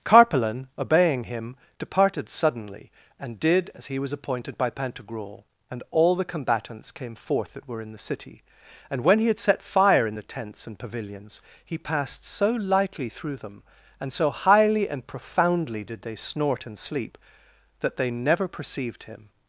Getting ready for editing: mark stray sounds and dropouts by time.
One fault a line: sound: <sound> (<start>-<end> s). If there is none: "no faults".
no faults